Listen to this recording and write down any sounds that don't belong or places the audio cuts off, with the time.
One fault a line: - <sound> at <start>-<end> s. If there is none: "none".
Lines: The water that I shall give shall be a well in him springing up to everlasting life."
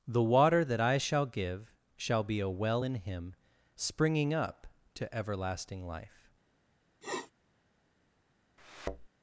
- sniff at 7.0-7.3 s
- thud at 8.6-9.1 s